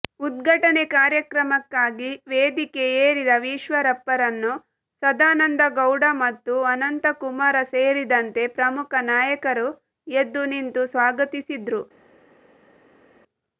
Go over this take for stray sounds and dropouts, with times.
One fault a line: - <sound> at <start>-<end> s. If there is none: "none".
none